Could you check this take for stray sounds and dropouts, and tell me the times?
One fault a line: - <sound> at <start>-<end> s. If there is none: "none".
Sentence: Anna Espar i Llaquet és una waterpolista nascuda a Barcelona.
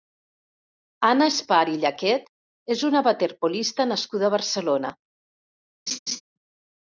- laugh at 5.9-6.2 s